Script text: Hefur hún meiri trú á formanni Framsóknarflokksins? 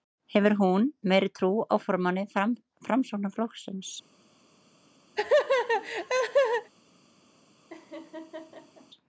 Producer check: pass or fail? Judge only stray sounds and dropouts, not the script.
fail